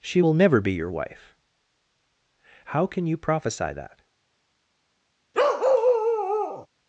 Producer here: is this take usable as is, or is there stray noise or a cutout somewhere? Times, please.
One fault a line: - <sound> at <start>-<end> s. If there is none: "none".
- bark at 5.3-6.7 s